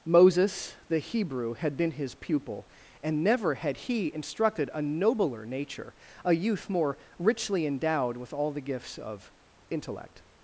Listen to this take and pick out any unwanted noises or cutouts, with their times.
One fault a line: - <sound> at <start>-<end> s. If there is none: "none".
none